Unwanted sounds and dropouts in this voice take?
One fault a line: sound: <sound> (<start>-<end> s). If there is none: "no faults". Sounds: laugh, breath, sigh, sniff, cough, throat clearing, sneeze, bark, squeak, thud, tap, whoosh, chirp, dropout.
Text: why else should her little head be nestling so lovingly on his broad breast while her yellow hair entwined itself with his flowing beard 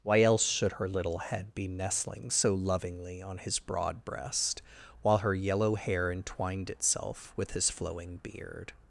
no faults